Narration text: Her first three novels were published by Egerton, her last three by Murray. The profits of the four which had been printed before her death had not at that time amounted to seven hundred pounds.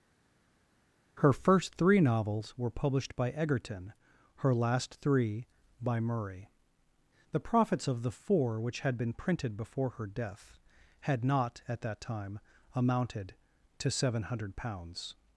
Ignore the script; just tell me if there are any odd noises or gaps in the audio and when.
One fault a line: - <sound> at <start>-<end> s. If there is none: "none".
none